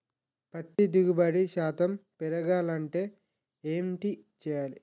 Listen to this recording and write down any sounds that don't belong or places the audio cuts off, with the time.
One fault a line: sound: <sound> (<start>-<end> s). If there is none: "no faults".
sound: dropout (0.8-0.8 s)